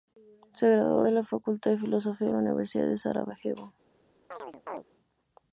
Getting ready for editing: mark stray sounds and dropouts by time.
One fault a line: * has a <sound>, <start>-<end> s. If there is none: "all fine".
* has a chirp, 4.3-4.8 s